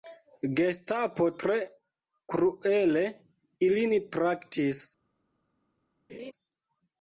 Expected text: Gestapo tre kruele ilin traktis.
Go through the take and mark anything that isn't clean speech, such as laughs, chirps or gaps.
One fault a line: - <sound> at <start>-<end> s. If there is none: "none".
- laugh at 6.1-6.3 s